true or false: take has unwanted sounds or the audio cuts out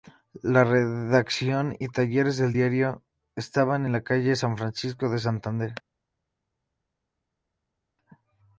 false